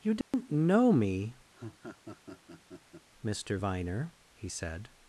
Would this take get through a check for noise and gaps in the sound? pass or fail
fail